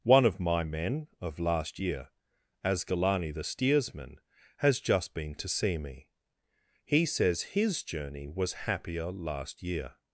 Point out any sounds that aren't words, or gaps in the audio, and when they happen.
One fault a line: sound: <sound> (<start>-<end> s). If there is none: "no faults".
no faults